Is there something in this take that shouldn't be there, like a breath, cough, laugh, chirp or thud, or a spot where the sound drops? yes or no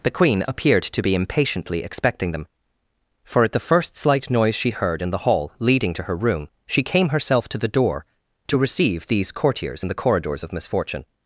no